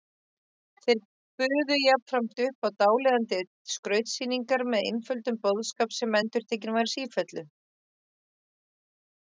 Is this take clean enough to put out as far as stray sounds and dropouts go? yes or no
yes